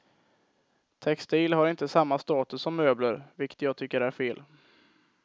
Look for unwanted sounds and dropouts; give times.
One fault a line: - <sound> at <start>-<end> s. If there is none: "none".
none